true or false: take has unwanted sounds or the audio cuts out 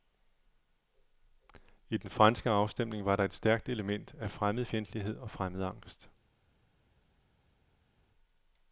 false